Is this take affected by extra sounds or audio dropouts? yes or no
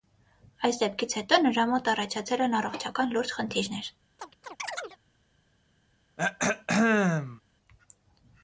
yes